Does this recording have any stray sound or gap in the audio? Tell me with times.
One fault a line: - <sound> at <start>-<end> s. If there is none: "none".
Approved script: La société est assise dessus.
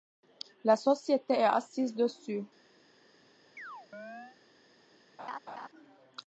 - chirp at 3.6-4.4 s
- laugh at 5.2-5.7 s